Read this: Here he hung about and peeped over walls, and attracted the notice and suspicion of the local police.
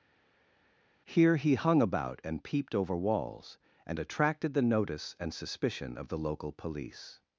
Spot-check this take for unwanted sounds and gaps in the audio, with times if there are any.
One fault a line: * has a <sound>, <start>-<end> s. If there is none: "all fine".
all fine